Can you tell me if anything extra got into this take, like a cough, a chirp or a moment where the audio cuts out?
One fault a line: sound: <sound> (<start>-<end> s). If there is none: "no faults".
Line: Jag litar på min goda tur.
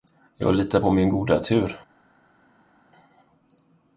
no faults